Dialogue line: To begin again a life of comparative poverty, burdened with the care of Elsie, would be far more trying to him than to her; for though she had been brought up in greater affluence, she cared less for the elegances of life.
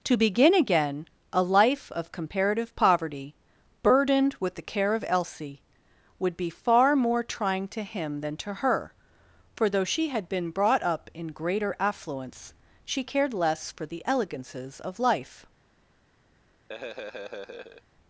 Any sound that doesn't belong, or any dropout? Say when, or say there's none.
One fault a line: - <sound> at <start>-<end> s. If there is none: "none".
- laugh at 16.7-17.8 s